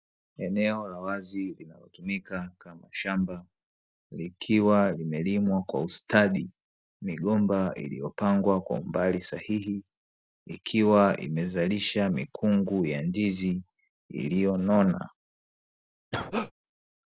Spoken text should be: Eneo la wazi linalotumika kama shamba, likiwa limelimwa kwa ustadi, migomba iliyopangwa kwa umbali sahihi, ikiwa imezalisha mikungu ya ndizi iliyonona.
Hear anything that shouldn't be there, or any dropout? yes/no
yes